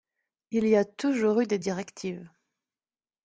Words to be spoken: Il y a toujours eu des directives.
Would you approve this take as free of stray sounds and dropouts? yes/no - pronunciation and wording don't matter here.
yes